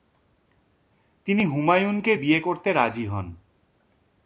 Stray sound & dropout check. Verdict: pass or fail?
pass